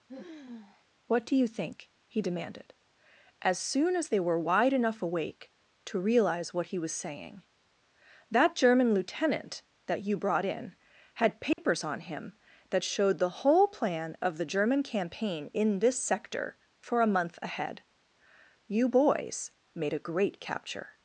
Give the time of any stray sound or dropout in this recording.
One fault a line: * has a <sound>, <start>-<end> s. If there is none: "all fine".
* has a sigh, 0.1-0.8 s
* has a dropout, 11.5-11.6 s